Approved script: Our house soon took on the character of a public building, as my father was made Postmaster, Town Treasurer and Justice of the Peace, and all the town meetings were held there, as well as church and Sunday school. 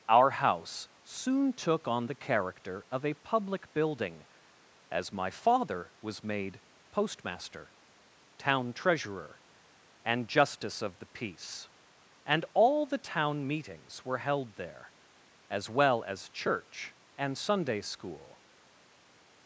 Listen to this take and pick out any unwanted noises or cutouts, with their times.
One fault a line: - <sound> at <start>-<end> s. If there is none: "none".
none